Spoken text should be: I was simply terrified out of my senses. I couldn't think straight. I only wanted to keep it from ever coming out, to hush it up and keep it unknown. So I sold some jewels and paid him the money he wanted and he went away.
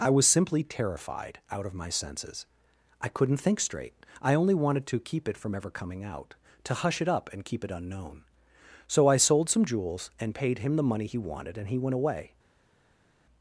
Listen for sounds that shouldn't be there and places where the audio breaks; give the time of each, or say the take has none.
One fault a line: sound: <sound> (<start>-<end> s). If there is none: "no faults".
no faults